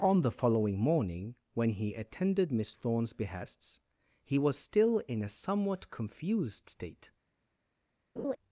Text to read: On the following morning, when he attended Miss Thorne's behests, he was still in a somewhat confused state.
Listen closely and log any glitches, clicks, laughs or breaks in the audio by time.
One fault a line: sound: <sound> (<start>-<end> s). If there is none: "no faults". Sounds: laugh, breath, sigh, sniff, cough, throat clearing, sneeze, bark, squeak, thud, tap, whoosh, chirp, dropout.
sound: laugh (8.2-8.4 s)